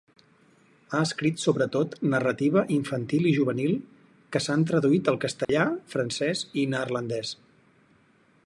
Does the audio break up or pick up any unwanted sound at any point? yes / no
yes